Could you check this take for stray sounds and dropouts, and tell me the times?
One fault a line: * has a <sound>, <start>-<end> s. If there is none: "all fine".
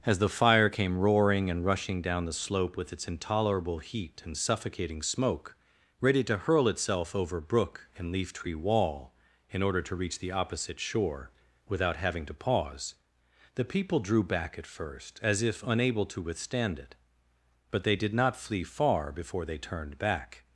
all fine